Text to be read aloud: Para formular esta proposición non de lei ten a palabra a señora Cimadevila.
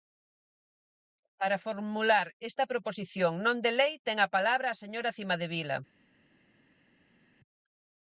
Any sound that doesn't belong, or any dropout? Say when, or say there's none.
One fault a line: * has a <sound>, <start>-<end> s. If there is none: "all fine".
all fine